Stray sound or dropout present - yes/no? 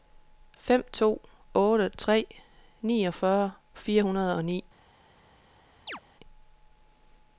yes